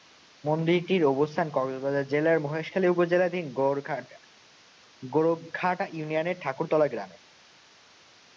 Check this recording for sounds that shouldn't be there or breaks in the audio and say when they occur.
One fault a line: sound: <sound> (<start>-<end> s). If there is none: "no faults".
no faults